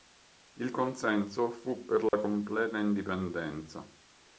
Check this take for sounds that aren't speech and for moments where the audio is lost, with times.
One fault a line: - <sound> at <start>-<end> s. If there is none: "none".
- dropout at 2.1-2.1 s